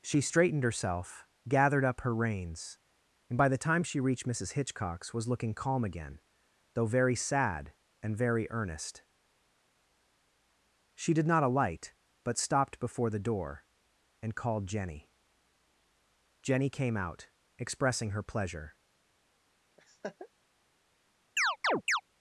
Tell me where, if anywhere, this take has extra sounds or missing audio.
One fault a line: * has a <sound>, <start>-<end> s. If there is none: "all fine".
* has a laugh, 19.8-20.3 s
* has a chirp, 21.4-22.0 s